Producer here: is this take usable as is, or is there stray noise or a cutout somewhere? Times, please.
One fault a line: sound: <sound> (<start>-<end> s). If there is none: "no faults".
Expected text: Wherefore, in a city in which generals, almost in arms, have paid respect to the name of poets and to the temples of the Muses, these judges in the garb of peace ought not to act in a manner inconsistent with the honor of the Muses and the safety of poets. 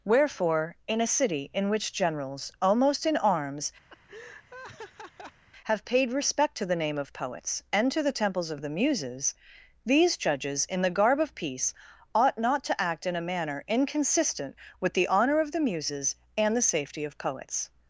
sound: laugh (3.9-5.4 s)